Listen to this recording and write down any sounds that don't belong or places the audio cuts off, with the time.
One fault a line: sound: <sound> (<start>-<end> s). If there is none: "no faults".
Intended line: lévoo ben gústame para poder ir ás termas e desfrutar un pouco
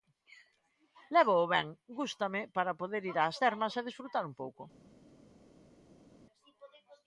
no faults